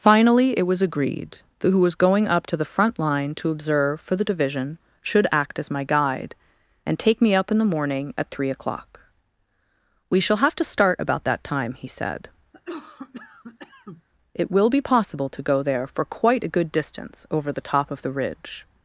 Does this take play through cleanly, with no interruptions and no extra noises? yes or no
no